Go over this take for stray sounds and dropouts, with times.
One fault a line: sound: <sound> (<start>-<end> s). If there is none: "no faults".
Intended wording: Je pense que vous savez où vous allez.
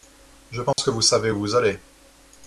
sound: dropout (0.7-0.8 s)